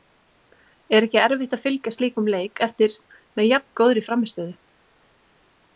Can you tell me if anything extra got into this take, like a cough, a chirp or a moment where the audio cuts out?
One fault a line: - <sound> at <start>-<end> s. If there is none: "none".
none